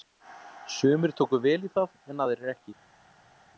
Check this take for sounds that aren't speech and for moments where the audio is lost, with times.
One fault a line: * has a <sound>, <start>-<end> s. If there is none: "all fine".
all fine